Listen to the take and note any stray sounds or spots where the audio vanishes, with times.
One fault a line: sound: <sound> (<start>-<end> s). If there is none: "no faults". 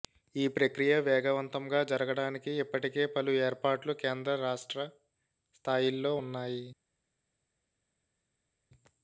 no faults